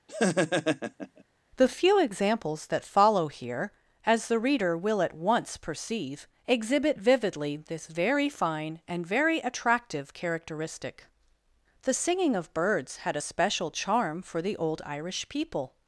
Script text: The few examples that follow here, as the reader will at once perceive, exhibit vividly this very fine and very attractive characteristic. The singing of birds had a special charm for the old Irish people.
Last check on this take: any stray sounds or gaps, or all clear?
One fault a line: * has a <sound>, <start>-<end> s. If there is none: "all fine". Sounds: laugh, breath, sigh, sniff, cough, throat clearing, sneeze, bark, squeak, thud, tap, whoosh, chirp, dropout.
* has a laugh, 0.1-1.2 s